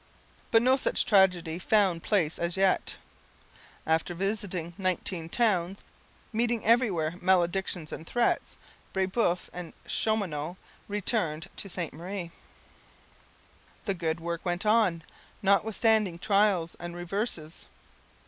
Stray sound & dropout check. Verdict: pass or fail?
pass